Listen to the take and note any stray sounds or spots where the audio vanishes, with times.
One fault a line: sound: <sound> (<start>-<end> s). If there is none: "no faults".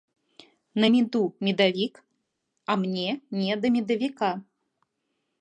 no faults